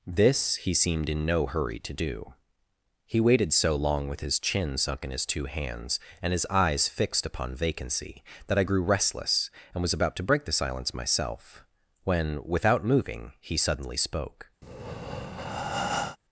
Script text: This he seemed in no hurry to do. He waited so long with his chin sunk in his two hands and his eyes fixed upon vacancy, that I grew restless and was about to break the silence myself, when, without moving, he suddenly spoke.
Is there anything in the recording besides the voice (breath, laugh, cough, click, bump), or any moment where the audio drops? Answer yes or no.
yes